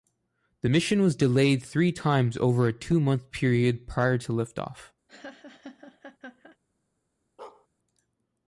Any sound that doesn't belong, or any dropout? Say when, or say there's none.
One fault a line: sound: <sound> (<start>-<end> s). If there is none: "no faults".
sound: laugh (5.1-6.6 s)
sound: bark (7.4-7.7 s)